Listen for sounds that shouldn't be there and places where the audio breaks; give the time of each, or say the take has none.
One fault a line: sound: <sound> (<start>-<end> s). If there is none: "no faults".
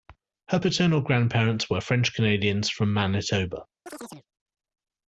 sound: chirp (3.9-4.3 s)